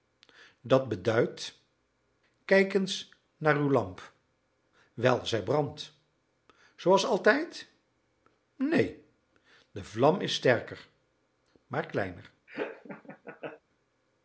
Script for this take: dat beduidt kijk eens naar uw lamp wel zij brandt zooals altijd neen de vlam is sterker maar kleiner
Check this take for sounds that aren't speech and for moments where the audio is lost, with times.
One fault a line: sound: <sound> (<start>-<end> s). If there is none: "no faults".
sound: laugh (12.5-13.6 s)